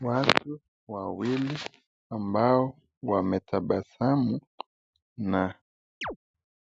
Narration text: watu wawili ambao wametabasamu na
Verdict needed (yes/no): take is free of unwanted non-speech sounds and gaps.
no